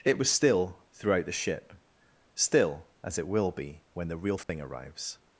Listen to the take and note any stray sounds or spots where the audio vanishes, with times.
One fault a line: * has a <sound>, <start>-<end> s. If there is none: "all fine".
* has a dropout, 4.4-4.5 s